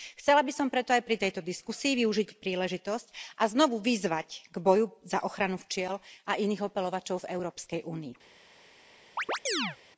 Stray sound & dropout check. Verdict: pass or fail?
fail